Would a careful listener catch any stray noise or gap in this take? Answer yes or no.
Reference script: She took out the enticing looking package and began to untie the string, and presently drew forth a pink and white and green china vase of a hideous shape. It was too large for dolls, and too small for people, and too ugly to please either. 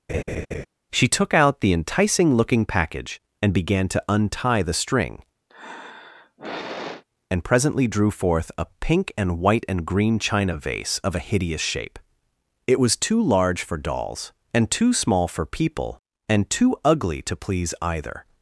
yes